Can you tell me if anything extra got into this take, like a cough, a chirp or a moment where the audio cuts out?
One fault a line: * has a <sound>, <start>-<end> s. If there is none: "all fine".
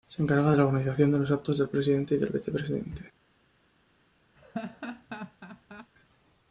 * has a laugh, 4.4-5.9 s